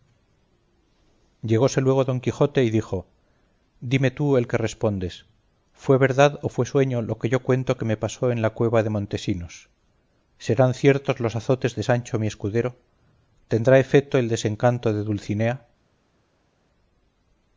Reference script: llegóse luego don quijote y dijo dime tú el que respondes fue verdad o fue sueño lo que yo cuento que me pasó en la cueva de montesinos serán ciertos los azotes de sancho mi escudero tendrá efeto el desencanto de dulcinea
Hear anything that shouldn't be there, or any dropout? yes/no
no